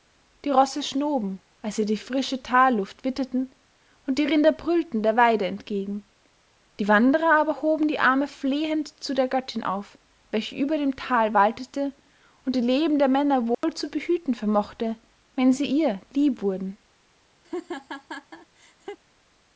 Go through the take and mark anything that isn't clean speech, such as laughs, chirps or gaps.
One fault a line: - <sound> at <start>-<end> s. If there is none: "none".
- dropout at 13.5-13.6 s
- laugh at 17.4-19.0 s